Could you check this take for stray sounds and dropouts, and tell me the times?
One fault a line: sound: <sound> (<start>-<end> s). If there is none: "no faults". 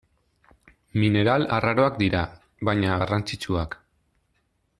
no faults